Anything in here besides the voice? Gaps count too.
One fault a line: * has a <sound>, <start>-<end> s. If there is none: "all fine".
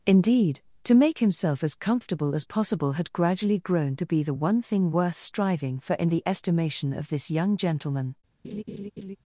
* has a laugh, 8.4-9.2 s